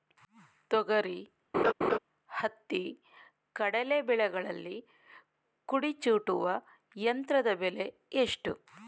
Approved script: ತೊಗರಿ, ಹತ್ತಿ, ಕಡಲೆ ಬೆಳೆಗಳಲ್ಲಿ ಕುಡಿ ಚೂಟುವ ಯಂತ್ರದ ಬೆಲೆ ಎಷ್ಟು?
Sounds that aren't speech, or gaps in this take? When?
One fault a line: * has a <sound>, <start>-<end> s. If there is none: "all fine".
* has a laugh, 1.5-2.0 s